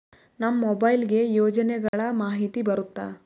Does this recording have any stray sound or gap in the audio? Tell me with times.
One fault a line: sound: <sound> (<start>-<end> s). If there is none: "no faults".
sound: dropout (1.9-1.9 s)